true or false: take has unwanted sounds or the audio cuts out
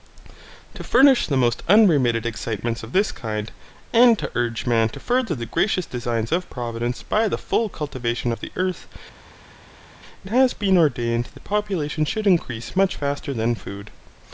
false